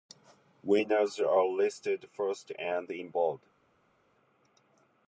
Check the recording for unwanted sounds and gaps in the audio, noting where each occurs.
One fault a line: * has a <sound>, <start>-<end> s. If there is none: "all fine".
all fine